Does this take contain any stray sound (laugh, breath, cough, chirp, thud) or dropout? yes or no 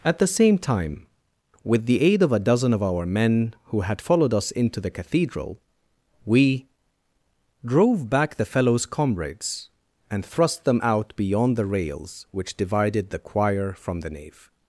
no